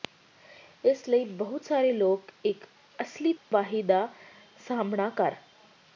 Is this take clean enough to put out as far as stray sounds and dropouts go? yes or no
no